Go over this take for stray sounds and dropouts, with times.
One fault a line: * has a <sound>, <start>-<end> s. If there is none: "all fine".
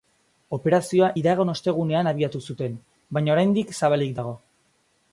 all fine